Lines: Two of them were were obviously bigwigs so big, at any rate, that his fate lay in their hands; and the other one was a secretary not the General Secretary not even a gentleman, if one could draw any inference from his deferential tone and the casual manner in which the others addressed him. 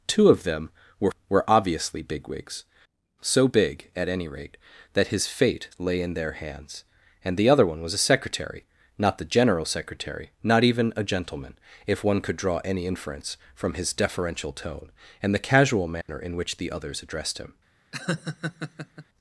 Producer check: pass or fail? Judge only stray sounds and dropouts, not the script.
fail